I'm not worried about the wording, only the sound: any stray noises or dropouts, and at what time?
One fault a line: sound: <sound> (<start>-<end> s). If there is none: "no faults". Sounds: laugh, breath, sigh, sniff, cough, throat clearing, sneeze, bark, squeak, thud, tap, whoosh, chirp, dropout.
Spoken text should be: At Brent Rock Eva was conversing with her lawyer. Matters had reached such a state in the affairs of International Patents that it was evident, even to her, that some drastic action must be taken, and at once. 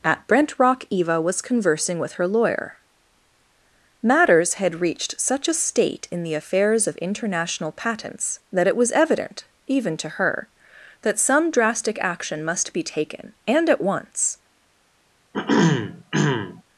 sound: throat clearing (15.3-16.6 s)